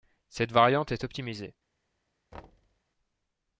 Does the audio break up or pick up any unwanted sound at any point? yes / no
yes